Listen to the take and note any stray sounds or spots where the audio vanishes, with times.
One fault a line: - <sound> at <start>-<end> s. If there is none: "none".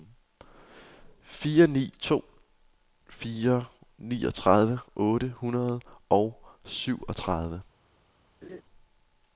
- laugh at 8.4-8.6 s